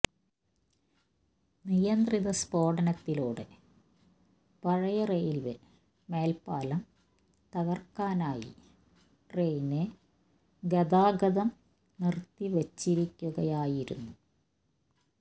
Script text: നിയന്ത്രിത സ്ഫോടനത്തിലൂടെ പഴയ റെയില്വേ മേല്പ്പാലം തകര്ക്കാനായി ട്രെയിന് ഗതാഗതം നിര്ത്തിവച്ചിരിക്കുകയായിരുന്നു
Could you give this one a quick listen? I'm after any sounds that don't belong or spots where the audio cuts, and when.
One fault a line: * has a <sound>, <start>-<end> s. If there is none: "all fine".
all fine